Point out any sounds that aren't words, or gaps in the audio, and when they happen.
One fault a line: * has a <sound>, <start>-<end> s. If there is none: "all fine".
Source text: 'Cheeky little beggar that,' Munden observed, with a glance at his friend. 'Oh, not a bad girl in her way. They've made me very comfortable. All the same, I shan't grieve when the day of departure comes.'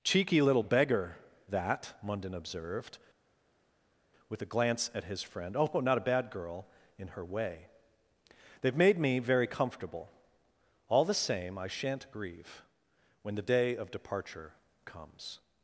all fine